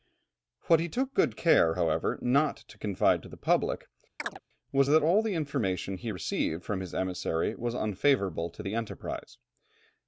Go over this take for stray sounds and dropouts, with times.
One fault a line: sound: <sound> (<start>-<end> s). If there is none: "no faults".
sound: chirp (4.2-4.4 s)